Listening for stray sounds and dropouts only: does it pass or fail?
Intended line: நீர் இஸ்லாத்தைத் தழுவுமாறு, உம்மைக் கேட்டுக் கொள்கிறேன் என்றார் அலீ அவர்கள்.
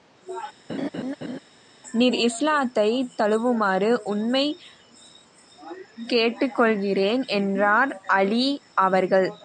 fail